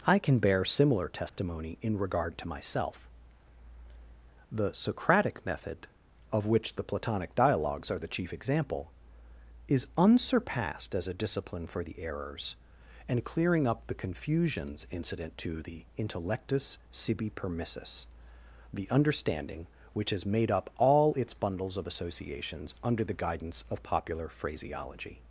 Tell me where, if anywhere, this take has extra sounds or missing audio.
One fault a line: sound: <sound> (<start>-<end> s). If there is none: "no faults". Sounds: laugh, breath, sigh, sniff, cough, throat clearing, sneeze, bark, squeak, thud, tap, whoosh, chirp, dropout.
sound: dropout (1.3-1.4 s)